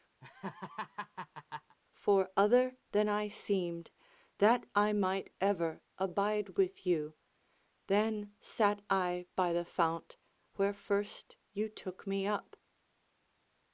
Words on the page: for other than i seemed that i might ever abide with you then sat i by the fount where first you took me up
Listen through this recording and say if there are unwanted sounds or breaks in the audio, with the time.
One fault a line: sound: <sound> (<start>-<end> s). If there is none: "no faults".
sound: laugh (0.2-1.8 s)